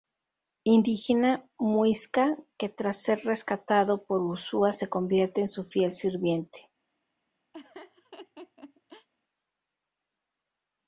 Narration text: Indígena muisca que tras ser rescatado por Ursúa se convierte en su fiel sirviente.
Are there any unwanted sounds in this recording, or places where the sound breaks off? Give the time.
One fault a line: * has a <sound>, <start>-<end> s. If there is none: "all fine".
* has a laugh, 7.5-9.1 s